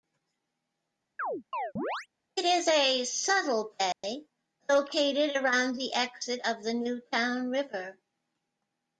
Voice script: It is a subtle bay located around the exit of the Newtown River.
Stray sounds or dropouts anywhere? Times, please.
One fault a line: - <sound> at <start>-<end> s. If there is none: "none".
- chirp at 1.2-2.1 s
- dropout at 3.9-4.0 s